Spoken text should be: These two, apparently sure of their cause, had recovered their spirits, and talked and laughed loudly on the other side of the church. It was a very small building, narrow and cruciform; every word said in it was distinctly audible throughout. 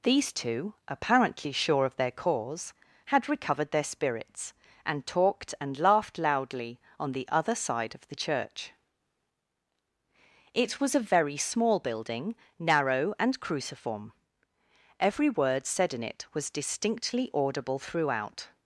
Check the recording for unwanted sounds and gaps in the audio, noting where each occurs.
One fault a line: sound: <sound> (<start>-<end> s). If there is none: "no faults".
no faults